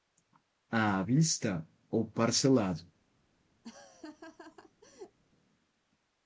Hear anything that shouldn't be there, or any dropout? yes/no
yes